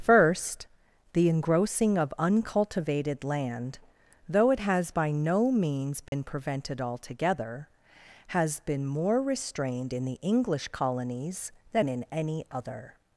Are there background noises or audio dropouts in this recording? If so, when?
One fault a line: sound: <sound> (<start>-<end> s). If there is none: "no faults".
sound: dropout (6.1-6.1 s)